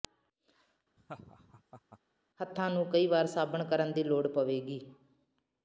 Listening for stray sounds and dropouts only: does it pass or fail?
fail